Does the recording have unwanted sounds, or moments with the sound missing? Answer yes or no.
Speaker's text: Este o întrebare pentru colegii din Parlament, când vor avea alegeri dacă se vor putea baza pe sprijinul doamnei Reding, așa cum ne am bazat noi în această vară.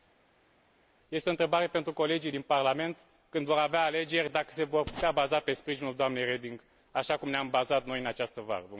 no